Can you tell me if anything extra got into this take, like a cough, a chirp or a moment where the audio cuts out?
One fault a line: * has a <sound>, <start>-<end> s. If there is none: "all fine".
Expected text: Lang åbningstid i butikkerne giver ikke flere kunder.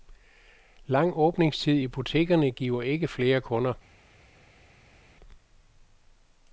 all fine